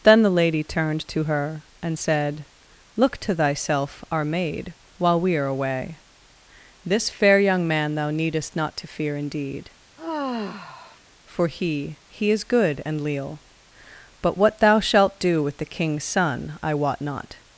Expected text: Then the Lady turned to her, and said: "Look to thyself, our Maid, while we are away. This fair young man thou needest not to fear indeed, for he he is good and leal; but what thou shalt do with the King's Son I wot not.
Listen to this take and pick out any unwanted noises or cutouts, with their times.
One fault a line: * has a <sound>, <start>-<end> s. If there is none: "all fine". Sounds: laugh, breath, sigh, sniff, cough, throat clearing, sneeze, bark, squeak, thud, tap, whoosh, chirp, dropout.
* has a sigh, 10.0-11.0 s